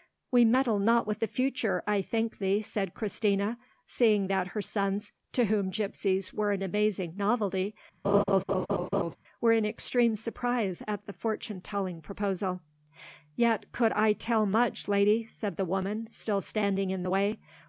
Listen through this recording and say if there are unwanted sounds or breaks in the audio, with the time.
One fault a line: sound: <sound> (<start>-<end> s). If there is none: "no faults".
sound: laugh (8.0-9.2 s)